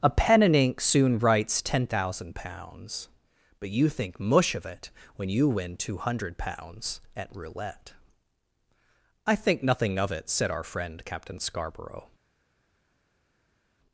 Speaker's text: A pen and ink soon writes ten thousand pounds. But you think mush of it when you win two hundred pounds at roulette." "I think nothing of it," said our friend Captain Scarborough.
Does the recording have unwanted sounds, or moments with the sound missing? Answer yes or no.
no